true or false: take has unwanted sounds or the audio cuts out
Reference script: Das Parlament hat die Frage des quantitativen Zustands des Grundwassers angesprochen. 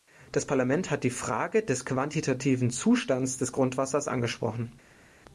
false